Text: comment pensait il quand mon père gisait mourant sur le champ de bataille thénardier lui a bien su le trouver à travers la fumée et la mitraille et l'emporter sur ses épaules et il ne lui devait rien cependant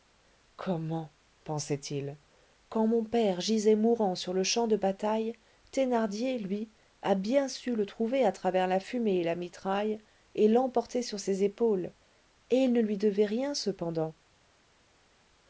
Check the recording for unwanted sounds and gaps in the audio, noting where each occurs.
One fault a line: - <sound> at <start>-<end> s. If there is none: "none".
none